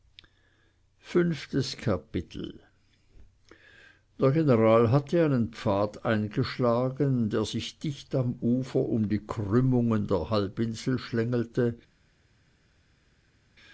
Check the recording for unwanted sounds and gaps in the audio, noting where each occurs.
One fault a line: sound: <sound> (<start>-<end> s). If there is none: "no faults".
no faults